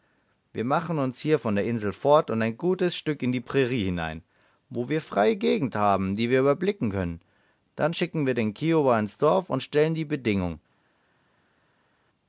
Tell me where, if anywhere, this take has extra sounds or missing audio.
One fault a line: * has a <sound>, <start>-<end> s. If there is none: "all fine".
all fine